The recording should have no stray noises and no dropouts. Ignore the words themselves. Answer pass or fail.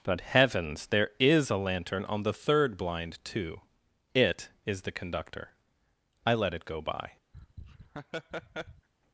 fail